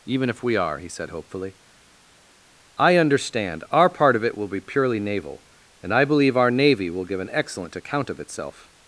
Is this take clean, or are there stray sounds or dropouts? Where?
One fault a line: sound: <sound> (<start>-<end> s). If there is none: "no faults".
no faults